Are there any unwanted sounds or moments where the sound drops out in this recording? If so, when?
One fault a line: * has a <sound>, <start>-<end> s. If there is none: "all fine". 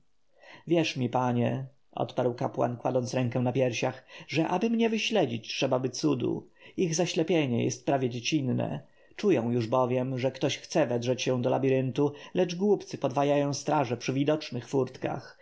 all fine